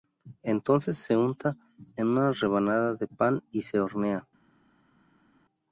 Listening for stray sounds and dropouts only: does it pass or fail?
pass